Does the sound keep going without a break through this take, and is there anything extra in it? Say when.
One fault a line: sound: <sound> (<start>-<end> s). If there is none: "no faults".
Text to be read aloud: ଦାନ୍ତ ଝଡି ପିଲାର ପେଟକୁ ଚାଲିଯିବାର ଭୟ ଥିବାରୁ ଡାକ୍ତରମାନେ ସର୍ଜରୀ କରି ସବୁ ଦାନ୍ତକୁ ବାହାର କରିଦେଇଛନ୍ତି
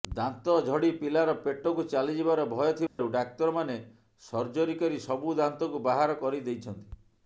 sound: dropout (2.9-3.0 s)